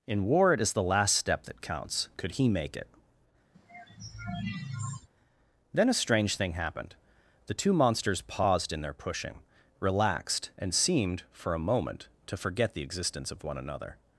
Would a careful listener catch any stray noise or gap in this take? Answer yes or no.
yes